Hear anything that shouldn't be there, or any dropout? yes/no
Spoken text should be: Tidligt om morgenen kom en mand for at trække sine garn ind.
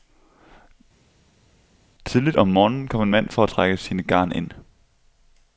no